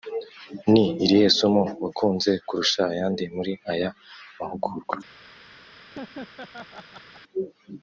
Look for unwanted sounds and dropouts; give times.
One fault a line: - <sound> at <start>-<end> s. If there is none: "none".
- laugh at 5.9-7.2 s